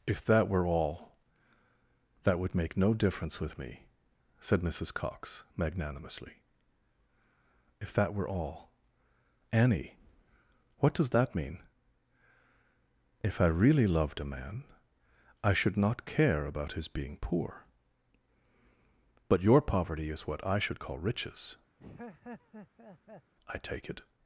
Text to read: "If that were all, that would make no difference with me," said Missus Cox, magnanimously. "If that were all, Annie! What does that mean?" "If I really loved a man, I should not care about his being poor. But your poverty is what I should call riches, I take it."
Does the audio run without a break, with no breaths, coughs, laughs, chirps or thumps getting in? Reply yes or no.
no